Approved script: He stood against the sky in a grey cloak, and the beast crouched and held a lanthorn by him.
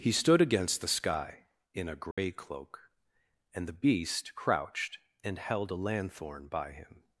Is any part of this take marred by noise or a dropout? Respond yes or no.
yes